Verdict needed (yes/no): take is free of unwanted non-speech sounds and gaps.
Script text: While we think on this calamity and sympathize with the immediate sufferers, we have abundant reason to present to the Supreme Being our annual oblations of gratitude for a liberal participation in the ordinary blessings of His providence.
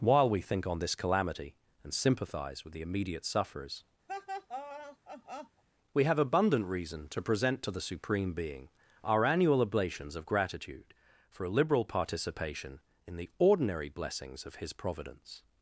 no